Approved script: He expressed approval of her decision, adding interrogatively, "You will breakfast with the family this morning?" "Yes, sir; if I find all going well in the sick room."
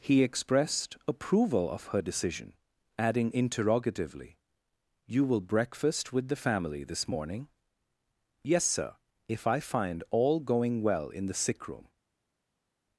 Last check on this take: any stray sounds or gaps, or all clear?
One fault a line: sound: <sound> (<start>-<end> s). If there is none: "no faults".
no faults